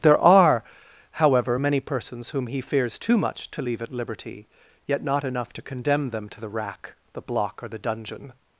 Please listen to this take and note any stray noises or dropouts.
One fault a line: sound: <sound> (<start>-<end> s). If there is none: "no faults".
no faults